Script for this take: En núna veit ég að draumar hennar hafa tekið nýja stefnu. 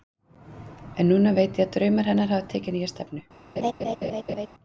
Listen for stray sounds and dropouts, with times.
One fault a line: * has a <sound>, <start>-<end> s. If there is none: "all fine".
* has a laugh, 3.6-4.5 s